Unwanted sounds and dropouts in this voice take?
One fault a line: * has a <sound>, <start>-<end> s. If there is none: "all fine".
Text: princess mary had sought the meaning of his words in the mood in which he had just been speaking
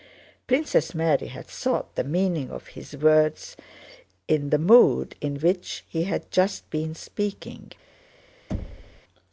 * has a thud, 8.5-9.0 s